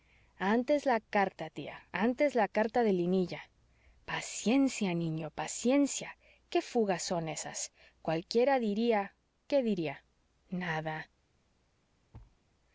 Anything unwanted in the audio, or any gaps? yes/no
yes